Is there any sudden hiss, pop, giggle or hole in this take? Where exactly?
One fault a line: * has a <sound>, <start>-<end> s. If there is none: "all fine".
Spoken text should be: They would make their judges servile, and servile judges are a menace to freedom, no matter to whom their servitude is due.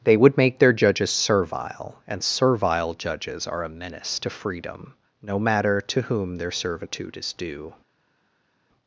all fine